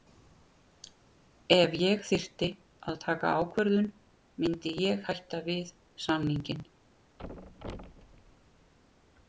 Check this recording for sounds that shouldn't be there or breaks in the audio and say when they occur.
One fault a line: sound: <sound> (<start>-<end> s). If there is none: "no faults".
sound: thud (7.2-8.7 s)